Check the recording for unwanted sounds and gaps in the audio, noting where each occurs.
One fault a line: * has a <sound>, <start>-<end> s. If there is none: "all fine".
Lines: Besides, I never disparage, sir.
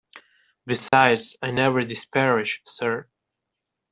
* has a dropout, 0.9-0.9 s